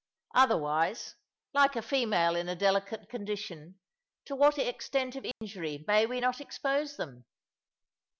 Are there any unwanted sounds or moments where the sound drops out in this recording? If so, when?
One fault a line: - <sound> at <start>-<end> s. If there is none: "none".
- dropout at 5.3-5.4 s